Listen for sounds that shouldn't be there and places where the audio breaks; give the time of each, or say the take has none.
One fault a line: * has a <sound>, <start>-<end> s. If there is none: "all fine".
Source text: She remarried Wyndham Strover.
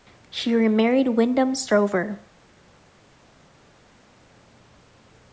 all fine